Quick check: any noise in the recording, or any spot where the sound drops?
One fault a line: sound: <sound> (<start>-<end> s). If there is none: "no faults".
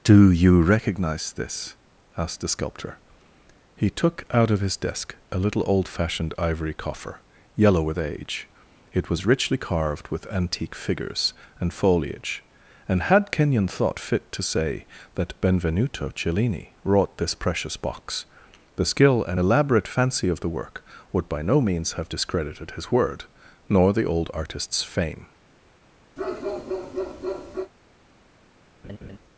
sound: bark (26.2-27.7 s)
sound: laugh (28.8-29.2 s)